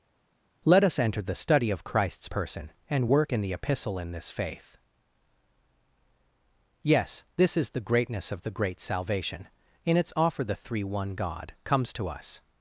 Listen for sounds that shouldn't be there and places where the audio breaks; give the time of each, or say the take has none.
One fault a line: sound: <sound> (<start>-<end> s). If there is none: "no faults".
no faults